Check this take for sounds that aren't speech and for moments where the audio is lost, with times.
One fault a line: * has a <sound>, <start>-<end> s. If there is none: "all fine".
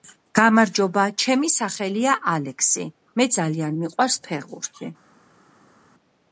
all fine